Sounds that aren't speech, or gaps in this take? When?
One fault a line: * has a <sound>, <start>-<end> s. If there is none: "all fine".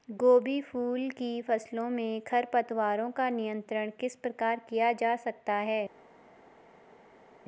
all fine